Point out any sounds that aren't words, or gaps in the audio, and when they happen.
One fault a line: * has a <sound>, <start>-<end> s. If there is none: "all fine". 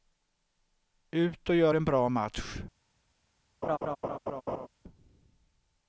* has a laugh, 3.6-4.7 s